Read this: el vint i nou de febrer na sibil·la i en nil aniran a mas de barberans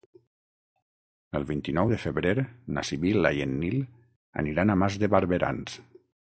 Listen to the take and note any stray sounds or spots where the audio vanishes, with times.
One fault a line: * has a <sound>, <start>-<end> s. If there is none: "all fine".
all fine